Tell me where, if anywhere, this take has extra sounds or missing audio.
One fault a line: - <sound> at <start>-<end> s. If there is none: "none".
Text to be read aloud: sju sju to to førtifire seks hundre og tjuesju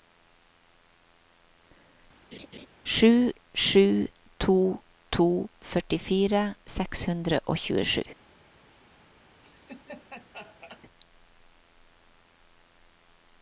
- laugh at 2.3-2.7 s
- laugh at 9.4-10.8 s